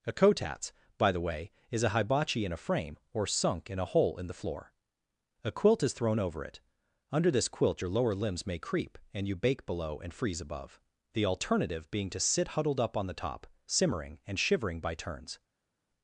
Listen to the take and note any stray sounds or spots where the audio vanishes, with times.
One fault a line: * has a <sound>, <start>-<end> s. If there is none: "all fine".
all fine